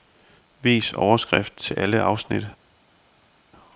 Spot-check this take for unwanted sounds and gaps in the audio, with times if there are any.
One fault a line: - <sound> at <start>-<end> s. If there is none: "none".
none